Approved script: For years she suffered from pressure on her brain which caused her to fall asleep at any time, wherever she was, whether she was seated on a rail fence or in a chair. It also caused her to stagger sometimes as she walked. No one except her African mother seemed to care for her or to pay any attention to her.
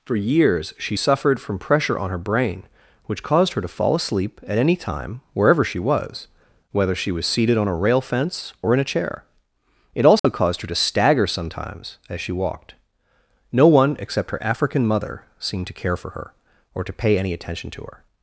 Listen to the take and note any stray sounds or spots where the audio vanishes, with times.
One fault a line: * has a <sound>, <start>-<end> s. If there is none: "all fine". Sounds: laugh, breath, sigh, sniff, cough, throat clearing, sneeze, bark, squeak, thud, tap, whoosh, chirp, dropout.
* has a dropout, 10.2-10.2 s